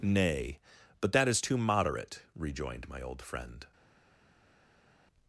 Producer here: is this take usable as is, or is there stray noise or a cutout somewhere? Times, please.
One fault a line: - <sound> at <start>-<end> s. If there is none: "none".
none